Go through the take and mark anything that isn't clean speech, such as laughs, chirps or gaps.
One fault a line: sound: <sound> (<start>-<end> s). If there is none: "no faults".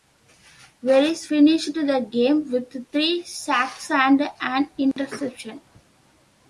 sound: dropout (4.9-5.0 s)